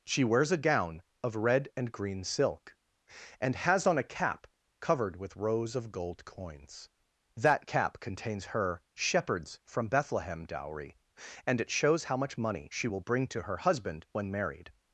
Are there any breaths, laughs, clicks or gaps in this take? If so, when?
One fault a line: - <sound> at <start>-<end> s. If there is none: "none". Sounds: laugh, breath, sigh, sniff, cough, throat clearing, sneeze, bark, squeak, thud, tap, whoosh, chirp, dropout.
none